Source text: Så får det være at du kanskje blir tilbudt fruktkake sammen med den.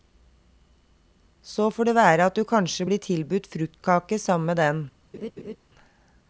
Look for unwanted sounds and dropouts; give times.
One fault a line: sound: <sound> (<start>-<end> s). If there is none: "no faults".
sound: laugh (5.1-5.6 s)